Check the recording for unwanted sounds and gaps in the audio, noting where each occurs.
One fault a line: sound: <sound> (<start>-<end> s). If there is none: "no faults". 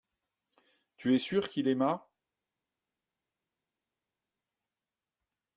no faults